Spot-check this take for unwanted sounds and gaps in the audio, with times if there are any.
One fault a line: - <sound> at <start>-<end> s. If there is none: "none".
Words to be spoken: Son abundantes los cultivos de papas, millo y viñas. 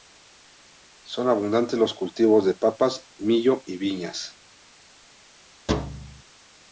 - thud at 5.7-6.2 s